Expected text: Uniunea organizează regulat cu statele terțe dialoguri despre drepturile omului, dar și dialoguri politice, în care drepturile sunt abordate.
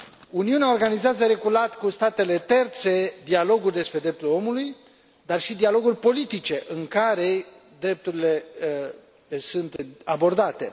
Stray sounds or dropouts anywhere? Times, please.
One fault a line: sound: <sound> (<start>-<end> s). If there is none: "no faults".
sound: dropout (9.8-9.8 s)